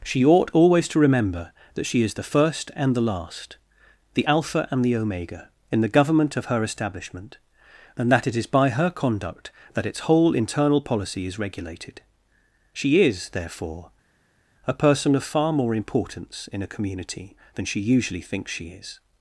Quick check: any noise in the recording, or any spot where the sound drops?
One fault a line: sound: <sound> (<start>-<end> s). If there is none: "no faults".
no faults